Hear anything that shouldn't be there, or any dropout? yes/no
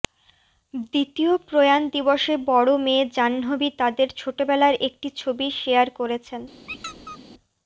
yes